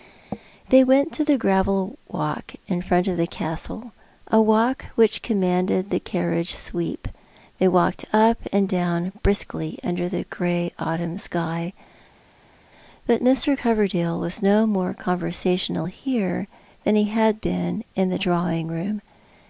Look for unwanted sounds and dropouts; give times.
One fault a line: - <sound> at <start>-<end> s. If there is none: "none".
none